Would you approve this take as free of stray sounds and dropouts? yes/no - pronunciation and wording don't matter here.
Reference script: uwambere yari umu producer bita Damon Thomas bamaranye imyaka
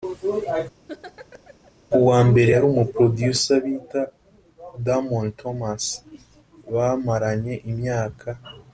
no